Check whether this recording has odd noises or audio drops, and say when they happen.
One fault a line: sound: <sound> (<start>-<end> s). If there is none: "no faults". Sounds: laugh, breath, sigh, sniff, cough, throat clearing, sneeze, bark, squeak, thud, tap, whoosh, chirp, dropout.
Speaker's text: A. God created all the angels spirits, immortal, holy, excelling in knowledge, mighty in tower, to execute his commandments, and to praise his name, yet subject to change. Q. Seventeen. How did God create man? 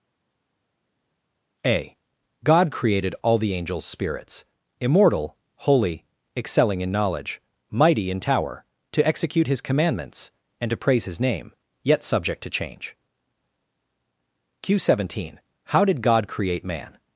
no faults